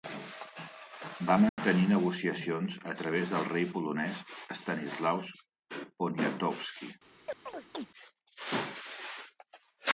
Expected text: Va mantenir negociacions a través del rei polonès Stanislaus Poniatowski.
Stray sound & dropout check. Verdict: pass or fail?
fail